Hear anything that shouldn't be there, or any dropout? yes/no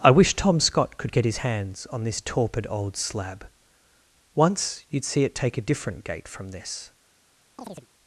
yes